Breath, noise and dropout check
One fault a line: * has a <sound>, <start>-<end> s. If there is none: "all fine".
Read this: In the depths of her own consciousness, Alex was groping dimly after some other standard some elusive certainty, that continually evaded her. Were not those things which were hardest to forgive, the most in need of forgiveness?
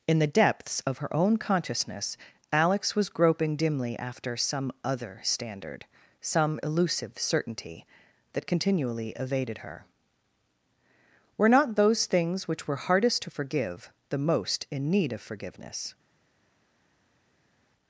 all fine